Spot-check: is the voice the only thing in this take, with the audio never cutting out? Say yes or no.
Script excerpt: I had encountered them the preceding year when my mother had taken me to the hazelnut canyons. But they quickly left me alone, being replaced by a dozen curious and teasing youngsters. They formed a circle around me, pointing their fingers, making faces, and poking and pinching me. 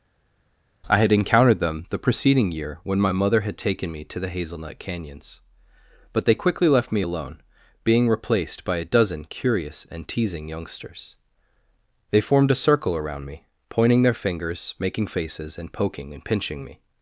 yes